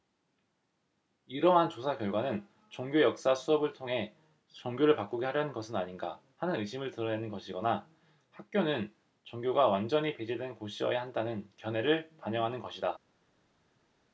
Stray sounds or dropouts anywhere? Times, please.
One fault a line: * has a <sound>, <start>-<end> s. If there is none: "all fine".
all fine